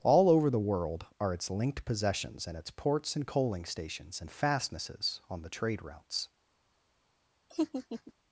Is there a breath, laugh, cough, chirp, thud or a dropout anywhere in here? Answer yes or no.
yes